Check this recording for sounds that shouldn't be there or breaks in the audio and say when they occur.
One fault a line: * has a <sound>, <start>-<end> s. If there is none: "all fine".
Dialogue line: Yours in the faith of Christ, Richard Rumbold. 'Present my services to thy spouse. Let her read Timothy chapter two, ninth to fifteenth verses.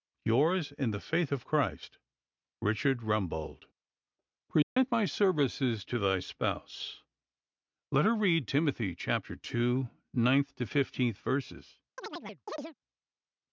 * has a dropout, 4.6-4.8 s
* has a chirp, 12.0-12.8 s